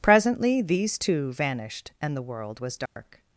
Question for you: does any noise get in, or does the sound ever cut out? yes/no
yes